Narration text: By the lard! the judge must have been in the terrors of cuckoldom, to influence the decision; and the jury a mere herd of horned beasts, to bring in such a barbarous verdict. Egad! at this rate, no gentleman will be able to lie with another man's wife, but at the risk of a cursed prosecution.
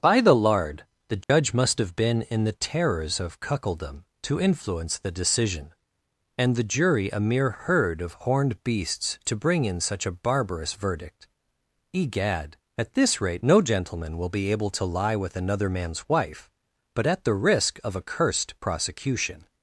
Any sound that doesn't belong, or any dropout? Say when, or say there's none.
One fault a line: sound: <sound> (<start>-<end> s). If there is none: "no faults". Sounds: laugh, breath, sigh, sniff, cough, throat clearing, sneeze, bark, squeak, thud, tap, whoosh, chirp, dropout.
sound: dropout (1.2-1.3 s)